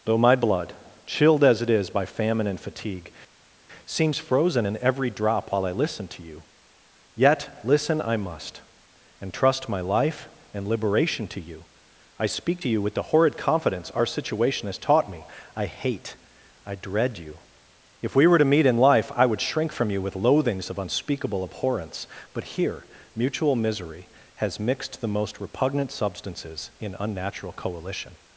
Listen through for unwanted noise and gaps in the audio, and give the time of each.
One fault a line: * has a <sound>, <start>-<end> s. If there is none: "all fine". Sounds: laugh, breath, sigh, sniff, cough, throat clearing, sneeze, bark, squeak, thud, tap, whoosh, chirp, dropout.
all fine